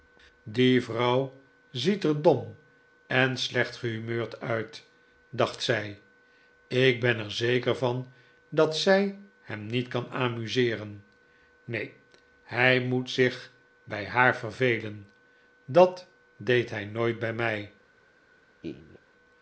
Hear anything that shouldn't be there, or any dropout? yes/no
yes